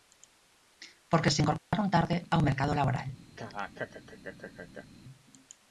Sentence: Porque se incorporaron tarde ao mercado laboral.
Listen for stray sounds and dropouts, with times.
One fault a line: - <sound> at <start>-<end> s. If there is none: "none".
- dropout at 1.6-1.7 s
- laugh at 3.4-4.9 s